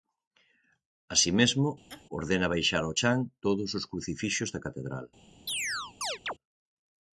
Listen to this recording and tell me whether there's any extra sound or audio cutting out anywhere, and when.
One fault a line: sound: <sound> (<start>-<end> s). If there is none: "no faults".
sound: laugh (1.9-2.1 s)
sound: chirp (5.5-6.3 s)